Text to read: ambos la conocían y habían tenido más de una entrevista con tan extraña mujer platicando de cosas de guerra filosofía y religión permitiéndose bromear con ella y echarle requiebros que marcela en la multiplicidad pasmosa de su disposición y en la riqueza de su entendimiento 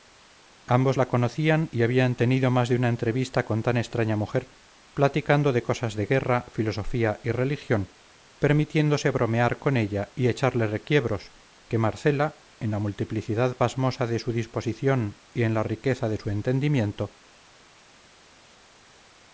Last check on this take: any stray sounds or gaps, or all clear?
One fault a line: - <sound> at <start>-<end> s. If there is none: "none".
none